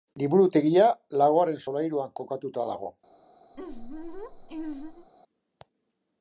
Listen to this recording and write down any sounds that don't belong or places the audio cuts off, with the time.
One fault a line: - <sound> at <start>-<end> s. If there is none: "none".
- laugh at 3.5-5.1 s